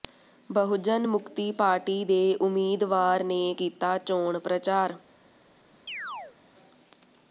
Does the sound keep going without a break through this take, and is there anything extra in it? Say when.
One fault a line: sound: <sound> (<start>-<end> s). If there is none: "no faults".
sound: chirp (5.9-6.4 s)